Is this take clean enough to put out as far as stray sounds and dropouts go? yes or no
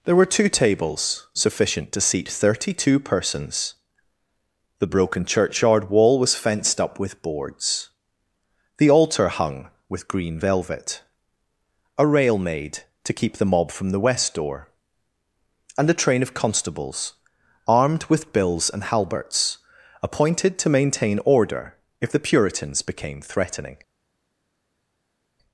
yes